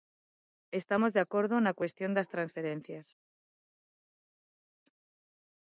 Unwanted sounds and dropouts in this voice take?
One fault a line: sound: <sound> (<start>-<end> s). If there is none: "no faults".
no faults